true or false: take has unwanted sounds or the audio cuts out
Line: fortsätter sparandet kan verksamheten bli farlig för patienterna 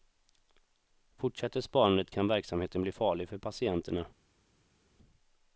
false